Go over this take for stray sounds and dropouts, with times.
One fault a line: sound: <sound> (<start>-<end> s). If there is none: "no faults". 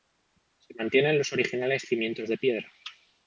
no faults